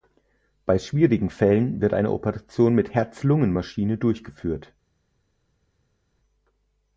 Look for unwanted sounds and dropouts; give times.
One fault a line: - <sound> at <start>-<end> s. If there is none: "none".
none